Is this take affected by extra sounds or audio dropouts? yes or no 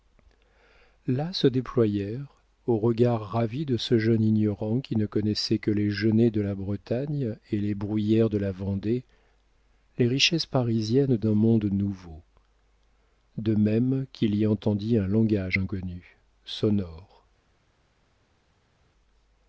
no